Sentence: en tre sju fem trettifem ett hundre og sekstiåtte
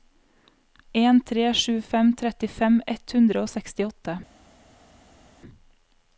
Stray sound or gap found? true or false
false